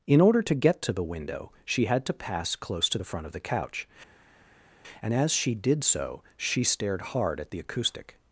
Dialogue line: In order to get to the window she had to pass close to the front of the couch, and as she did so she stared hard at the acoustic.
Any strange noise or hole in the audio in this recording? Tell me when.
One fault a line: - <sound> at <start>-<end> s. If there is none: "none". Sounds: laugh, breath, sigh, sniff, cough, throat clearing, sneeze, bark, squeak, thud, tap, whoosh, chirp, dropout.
none